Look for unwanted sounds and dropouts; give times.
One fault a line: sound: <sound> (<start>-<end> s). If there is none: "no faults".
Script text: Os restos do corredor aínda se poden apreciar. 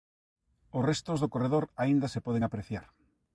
no faults